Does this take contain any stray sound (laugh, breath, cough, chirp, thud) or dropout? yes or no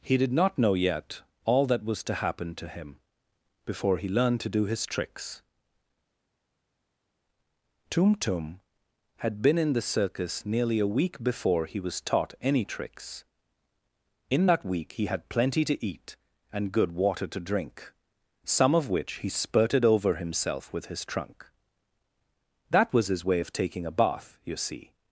no